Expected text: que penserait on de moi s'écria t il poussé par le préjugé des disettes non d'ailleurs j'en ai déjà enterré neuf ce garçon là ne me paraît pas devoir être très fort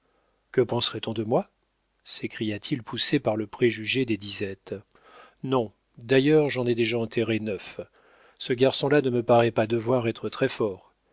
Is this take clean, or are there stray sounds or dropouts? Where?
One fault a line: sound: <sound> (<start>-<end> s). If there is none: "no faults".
no faults